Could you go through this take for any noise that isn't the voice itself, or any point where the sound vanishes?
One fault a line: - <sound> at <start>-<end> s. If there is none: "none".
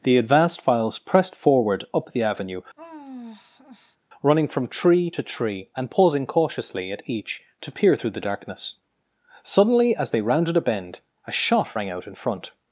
- sigh at 2.8-4.0 s